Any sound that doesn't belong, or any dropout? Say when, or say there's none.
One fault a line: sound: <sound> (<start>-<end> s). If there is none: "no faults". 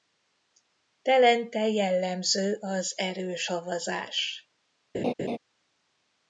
sound: laugh (4.9-5.4 s)